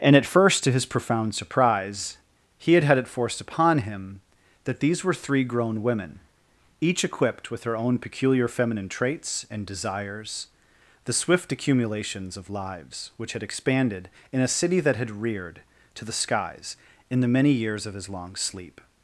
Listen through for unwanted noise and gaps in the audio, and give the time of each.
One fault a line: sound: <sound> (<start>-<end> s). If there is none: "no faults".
no faults